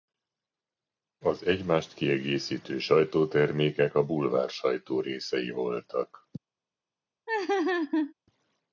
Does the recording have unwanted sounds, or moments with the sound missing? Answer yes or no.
yes